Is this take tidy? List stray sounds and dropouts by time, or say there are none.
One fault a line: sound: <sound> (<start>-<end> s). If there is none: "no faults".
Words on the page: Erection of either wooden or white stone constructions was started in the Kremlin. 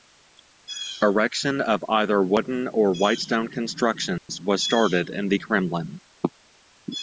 sound: dropout (4.2-4.3 s)